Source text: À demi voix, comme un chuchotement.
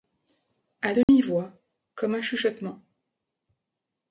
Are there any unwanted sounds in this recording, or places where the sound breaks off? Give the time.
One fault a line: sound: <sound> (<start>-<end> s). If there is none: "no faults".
sound: dropout (1.0-1.1 s)